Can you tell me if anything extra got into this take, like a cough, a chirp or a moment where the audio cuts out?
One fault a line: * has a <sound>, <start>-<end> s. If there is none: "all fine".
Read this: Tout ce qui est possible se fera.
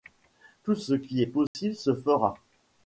* has a dropout, 1.5-1.5 s